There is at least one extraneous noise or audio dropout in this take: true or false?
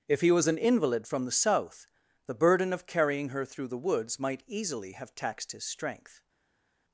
false